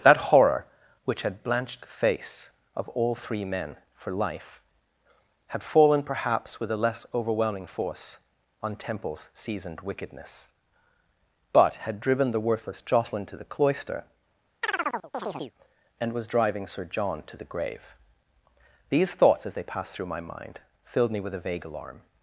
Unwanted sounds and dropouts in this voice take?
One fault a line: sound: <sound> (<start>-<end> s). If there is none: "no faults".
sound: chirp (14.6-15.5 s)